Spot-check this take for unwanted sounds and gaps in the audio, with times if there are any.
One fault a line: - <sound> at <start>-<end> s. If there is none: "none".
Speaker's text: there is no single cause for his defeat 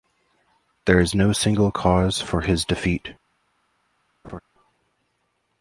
- laugh at 4.2-4.4 s